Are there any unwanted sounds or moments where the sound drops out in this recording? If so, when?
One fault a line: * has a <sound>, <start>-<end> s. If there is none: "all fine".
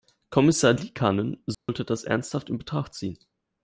* has a dropout, 1.5-1.7 s